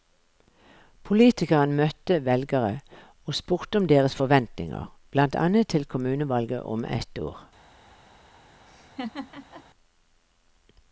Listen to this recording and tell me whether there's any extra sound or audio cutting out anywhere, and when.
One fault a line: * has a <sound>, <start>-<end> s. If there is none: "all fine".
* has a laugh, 8.7-9.6 s